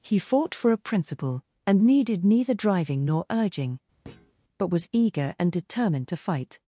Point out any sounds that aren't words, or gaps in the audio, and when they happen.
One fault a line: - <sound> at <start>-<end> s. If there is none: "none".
- thud at 4.1-4.3 s